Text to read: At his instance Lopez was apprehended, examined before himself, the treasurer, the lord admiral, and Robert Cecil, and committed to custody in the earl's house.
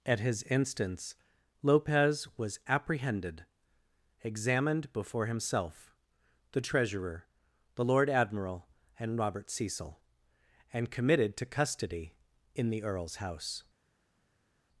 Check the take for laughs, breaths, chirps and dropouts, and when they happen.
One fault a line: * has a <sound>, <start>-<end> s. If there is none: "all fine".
all fine